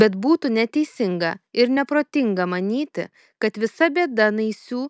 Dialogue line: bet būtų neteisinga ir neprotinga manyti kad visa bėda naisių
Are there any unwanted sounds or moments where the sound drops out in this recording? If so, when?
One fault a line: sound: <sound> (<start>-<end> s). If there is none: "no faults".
no faults